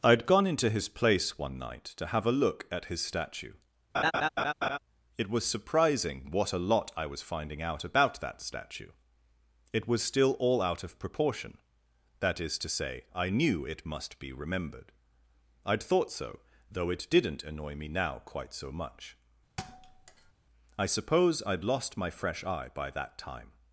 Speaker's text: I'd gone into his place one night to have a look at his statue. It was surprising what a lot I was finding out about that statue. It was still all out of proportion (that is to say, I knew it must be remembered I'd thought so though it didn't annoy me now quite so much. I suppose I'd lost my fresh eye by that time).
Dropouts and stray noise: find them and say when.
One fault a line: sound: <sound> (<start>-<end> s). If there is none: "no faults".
sound: laugh (3.9-4.8 s)
sound: thud (19.6-20.3 s)